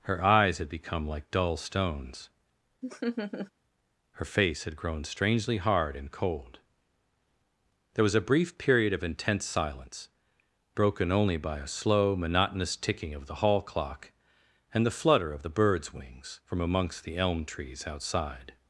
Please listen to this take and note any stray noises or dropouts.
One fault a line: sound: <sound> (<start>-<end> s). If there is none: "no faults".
sound: laugh (2.8-3.5 s)